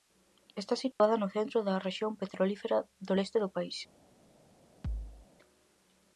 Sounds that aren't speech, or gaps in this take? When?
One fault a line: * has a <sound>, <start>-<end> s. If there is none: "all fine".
* has a dropout, 0.9-1.0 s
* has a thud, 4.8-5.3 s